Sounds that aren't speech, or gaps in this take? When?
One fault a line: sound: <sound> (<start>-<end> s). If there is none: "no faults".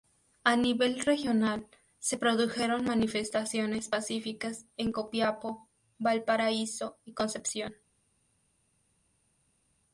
no faults